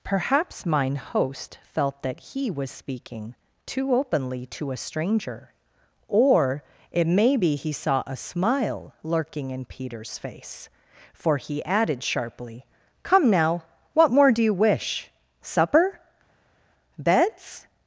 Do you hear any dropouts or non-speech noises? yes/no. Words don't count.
no